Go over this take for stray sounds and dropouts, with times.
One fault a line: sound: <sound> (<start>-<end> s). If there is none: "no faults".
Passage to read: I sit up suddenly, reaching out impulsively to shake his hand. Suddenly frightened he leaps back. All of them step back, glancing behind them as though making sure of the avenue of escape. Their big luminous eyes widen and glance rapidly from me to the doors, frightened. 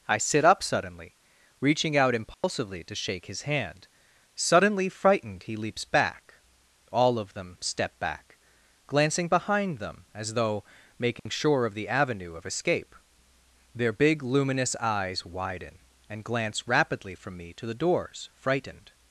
sound: dropout (2.3-2.4 s)
sound: dropout (11.2-11.3 s)